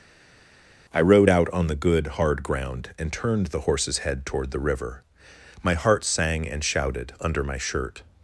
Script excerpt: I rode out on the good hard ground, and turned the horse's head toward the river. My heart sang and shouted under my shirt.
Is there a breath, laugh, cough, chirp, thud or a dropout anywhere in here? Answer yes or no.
no